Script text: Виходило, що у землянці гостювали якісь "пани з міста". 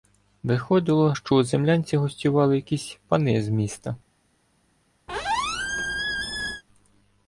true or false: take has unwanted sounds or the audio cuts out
true